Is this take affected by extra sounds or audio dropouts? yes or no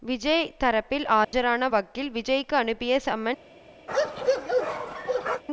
yes